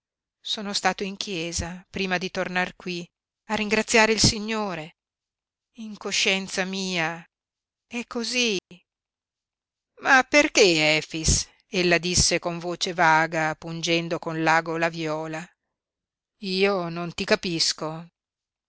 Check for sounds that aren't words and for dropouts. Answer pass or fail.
fail